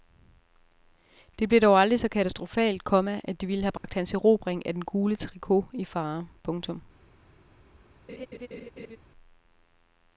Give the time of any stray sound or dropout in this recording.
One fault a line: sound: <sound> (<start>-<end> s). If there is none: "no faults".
sound: dropout (3.8-3.8 s)
sound: laugh (8.1-9.0 s)